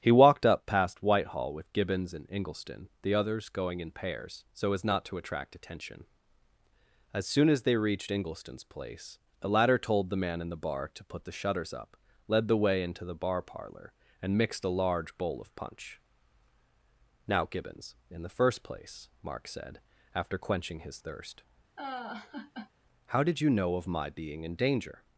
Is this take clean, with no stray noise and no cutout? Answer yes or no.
no